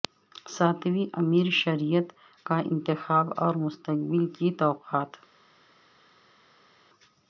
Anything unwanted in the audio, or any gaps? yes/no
no